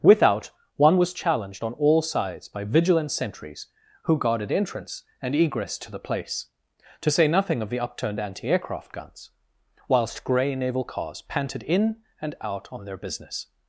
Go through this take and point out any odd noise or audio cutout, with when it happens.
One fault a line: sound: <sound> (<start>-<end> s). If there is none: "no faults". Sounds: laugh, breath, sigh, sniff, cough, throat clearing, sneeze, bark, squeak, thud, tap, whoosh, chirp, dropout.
no faults